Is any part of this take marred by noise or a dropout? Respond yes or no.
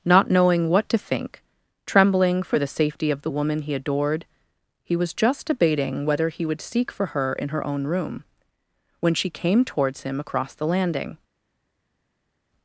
no